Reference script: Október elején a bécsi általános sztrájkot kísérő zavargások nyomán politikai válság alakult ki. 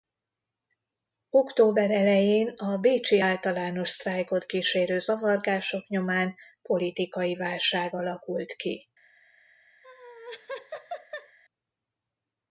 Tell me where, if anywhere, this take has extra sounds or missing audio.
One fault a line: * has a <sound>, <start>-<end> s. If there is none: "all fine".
* has a laugh, 9.8-11.4 s